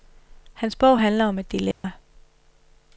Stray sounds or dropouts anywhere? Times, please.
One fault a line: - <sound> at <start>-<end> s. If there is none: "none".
- dropout at 1.7-1.8 s